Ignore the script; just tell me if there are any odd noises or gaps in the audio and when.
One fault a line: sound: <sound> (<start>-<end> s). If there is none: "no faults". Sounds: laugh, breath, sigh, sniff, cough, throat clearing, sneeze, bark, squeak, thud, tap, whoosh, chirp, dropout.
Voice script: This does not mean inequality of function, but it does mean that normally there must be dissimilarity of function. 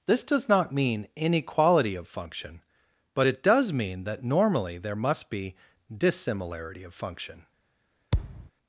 sound: thud (8.1-8.5 s)